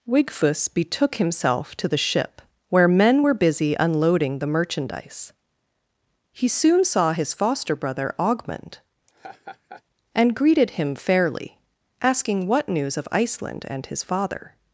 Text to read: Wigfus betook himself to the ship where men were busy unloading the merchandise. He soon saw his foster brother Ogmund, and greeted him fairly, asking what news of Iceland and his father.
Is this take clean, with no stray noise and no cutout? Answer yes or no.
no